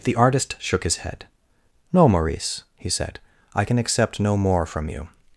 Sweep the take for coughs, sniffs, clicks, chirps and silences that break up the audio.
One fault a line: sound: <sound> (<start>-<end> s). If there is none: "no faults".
no faults